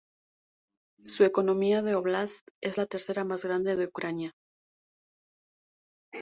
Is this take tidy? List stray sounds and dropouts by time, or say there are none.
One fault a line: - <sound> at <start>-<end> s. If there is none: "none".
none